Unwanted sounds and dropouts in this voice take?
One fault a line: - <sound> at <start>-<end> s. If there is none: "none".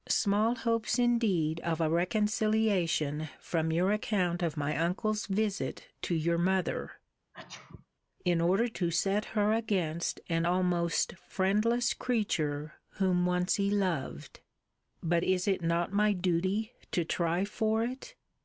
- sneeze at 7.3-7.9 s